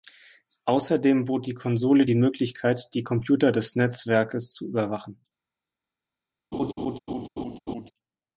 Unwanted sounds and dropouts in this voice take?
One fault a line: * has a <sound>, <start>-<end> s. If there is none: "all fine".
* has a laugh, 6.5-7.9 s